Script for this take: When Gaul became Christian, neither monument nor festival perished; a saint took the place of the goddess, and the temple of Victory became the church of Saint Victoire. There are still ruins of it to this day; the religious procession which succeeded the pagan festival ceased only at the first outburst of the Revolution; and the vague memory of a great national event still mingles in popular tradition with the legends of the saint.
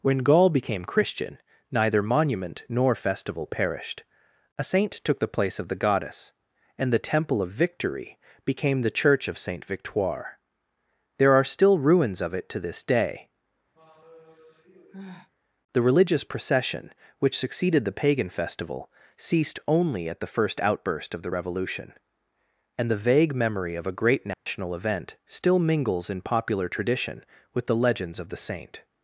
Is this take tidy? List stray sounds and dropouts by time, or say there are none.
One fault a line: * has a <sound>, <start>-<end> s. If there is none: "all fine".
* has a sigh, 13.7-15.3 s
* has a dropout, 24.3-24.5 s